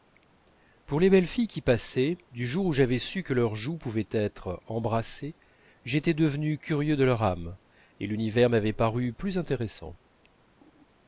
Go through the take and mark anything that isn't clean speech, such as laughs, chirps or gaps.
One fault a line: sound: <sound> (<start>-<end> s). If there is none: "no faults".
no faults